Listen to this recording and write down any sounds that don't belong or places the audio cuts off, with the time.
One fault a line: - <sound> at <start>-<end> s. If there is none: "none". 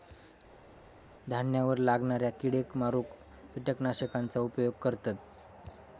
none